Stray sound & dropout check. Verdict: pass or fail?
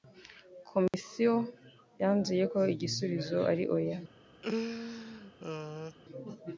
fail